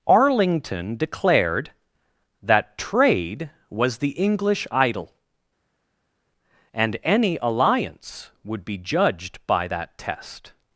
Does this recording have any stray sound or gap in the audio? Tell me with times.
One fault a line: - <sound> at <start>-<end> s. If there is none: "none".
none